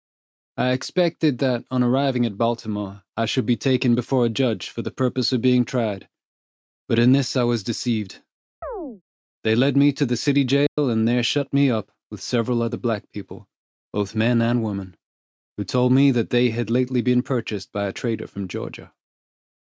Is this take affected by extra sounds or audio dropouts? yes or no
yes